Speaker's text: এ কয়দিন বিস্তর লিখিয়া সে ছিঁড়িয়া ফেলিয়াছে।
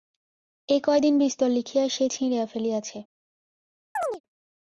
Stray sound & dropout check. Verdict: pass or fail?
fail